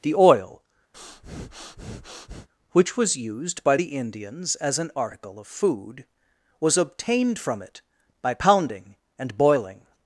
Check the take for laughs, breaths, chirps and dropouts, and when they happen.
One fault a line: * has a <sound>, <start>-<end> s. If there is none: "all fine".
* has a breath, 0.9-2.5 s